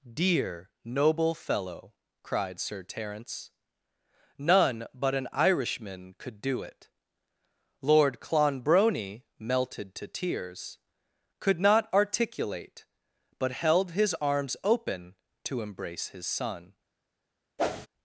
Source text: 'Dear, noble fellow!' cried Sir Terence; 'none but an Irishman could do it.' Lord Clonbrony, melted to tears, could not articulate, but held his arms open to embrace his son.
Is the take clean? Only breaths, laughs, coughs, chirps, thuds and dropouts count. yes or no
no